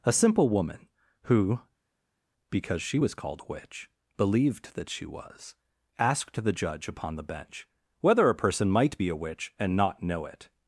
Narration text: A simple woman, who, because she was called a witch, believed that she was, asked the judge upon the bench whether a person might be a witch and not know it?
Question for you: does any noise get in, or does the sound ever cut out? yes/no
no